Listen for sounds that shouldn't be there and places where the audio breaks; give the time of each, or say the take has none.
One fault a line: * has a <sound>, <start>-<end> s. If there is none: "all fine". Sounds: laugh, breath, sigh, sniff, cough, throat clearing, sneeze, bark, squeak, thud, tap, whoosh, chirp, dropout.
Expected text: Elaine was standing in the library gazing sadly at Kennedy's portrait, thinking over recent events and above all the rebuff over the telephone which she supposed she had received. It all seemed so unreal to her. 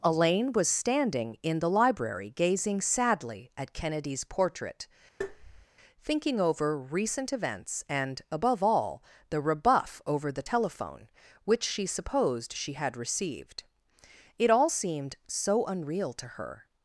* has a tap, 5.2-5.7 s